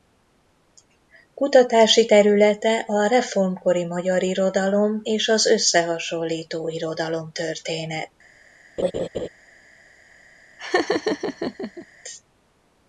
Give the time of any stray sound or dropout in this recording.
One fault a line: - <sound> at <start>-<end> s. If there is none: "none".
- laugh at 8.8-9.3 s
- laugh at 10.6-11.9 s